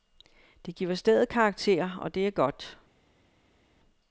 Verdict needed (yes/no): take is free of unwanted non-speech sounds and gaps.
yes